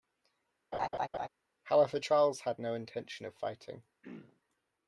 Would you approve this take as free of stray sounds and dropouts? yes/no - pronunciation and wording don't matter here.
no